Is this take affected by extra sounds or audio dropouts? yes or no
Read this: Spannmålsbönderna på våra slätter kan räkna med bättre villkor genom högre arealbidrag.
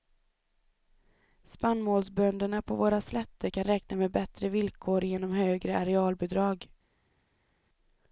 no